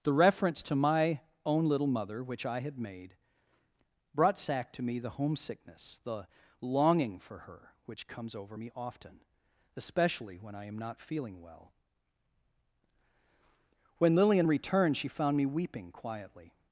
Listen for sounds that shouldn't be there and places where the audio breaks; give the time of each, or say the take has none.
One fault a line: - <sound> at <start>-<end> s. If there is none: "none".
none